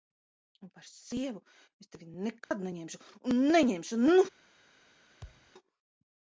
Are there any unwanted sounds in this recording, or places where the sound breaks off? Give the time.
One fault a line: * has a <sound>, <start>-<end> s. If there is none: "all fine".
* has a dropout, 2.4-2.5 s
* has a thud, 5.2-5.5 s